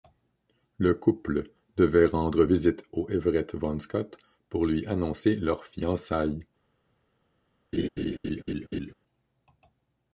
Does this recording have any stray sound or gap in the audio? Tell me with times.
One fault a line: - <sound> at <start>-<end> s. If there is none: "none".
- laugh at 7.7-8.9 s